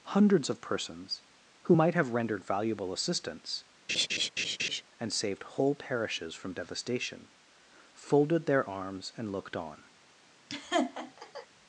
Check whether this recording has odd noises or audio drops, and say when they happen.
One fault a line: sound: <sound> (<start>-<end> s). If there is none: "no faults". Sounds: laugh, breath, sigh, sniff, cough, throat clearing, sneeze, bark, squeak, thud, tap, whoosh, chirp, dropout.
sound: laugh (3.9-4.8 s)
sound: laugh (10.5-11.5 s)